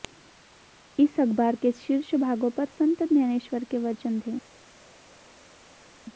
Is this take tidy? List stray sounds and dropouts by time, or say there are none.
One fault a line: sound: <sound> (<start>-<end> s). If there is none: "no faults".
no faults